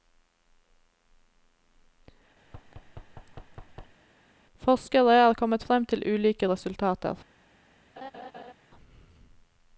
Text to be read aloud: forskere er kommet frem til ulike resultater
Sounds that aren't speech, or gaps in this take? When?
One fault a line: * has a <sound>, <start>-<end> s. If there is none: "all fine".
* has a thud, 2.4-4.0 s
* has a laugh, 8.0-8.5 s